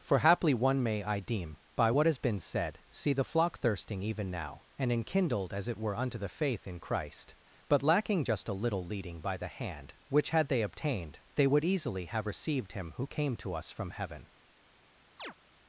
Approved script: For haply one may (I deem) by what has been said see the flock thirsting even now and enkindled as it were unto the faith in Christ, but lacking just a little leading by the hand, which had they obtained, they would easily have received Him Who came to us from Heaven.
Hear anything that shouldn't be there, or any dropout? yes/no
yes